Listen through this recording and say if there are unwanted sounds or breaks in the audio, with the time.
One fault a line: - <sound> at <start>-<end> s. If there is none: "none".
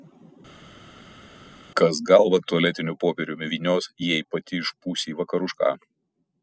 none